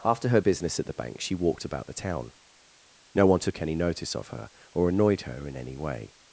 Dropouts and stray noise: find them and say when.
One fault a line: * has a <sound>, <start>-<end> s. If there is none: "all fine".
all fine